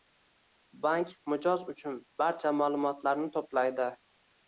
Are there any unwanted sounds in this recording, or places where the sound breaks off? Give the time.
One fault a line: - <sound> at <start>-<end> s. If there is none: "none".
none